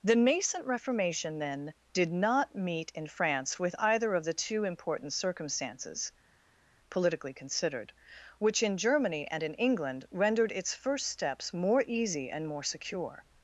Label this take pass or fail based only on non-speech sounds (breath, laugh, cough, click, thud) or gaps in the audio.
pass